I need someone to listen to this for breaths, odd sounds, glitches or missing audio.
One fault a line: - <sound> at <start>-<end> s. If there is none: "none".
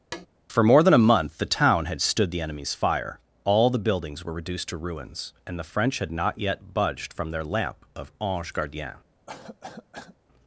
- tap at 0.1-0.3 s
- cough at 9.3-10.2 s